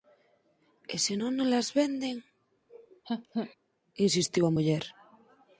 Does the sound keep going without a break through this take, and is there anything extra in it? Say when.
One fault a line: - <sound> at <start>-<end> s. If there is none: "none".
- laugh at 2.7-3.6 s